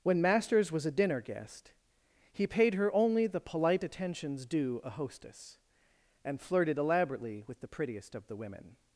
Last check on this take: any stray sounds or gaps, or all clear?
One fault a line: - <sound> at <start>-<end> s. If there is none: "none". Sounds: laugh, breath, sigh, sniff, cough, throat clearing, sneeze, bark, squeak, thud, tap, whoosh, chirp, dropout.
none